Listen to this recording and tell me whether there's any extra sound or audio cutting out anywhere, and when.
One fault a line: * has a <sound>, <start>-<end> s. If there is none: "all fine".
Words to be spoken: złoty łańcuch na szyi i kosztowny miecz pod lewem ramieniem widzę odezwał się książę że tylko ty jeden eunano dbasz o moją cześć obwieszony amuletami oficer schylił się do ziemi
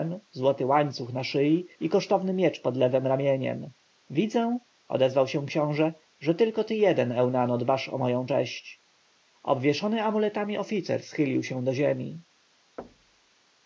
* has a thud, 12.8-13.4 s